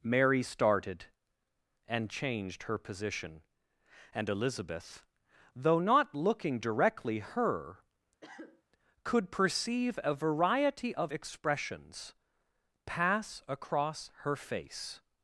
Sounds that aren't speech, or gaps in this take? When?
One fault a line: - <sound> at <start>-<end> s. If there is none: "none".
- cough at 8.2-8.6 s